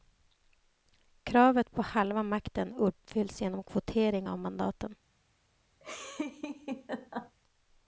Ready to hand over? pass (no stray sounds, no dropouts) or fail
fail